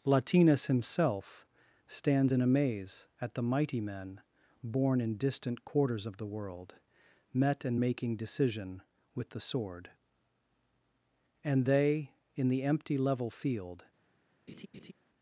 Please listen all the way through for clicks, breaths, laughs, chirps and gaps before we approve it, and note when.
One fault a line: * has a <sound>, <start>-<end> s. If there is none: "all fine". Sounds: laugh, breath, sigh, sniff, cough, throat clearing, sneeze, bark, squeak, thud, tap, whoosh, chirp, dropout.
* has a laugh, 14.5-14.9 s